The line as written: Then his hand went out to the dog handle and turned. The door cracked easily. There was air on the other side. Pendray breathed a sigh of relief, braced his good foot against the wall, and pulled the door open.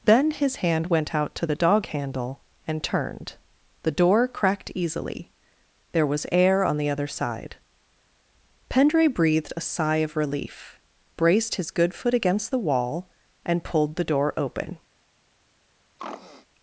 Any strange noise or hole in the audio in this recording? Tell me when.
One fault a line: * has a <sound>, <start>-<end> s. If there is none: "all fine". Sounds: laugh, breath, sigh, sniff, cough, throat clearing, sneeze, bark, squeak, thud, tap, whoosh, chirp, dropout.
* has a throat clearing, 16.0-16.5 s